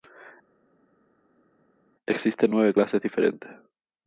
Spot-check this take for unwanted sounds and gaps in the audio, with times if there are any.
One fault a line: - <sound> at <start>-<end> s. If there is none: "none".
none